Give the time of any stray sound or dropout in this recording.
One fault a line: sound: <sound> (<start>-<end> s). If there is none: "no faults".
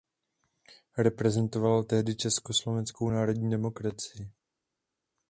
no faults